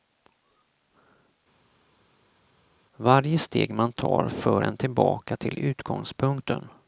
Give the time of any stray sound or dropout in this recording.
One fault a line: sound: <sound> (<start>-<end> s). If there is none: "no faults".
no faults